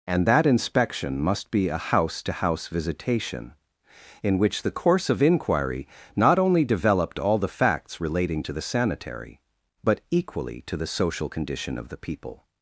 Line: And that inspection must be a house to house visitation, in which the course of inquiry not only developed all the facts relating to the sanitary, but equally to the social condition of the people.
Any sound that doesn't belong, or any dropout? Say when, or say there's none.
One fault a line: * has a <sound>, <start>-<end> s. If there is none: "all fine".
all fine